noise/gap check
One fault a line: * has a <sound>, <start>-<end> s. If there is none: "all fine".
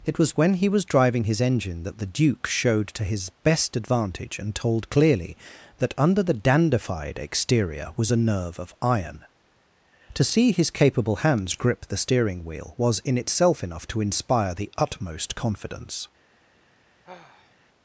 * has a sigh, 17.0-17.6 s